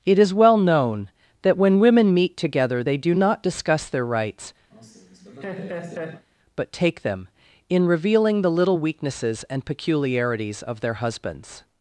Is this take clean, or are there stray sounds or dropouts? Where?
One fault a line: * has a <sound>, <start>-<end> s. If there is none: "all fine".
* has a laugh, 4.7-6.3 s